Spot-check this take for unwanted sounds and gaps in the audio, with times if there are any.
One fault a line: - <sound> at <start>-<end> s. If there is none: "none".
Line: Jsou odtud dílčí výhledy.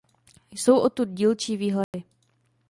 - dropout at 1.8-1.9 s